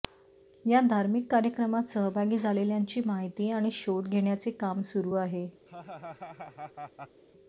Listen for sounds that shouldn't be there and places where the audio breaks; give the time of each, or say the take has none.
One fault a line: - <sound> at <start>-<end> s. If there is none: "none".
- laugh at 5.7-7.2 s